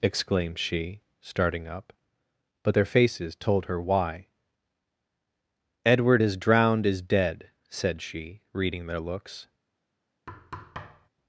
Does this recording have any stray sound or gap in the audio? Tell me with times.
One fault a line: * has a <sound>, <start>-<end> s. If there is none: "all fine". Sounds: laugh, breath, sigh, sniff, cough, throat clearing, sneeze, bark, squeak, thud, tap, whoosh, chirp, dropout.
* has a thud, 10.3-11.1 s